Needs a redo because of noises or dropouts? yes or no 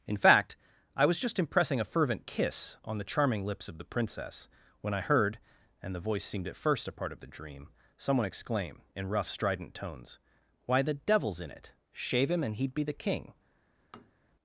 yes